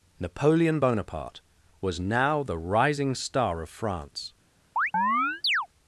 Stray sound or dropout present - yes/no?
yes